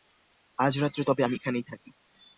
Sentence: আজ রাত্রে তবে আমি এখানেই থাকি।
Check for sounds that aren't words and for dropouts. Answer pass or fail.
pass